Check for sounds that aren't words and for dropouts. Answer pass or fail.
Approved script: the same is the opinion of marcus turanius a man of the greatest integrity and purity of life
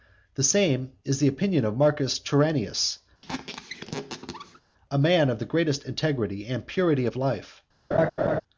fail